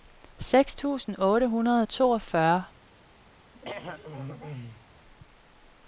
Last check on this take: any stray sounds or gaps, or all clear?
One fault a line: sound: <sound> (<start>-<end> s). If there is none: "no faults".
sound: throat clearing (3.5-4.9 s)